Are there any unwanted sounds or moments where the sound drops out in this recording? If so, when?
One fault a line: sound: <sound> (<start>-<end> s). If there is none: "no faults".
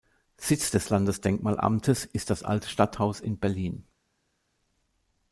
no faults